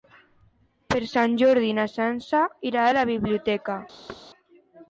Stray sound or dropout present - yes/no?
yes